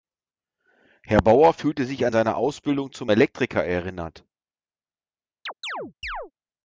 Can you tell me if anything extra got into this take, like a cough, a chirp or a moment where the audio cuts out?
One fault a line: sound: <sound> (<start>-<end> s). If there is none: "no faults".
sound: chirp (5.5-6.3 s)